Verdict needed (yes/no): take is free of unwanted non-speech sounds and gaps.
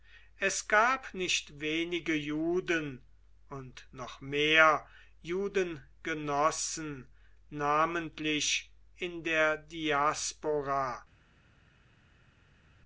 yes